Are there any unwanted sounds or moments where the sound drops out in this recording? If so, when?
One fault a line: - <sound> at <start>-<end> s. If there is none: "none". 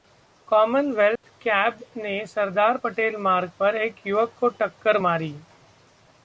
- dropout at 1.2-1.2 s